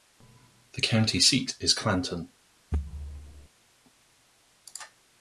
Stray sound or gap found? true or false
true